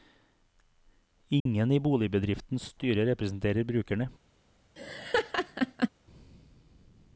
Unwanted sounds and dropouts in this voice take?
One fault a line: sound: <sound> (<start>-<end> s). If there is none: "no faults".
sound: dropout (1.4-1.5 s)
sound: laugh (4.8-5.9 s)